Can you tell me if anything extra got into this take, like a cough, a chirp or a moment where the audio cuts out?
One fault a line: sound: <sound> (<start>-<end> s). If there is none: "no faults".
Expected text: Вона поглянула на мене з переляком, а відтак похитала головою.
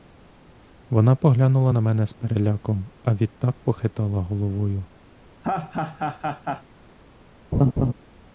sound: laugh (5.4-6.6 s)
sound: laugh (7.5-7.9 s)